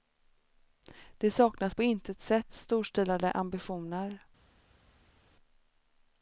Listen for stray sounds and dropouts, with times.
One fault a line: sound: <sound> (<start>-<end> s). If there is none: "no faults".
no faults